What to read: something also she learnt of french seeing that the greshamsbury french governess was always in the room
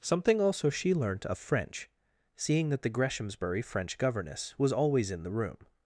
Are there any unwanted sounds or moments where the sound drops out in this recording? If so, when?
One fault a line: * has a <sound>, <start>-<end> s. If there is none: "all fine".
all fine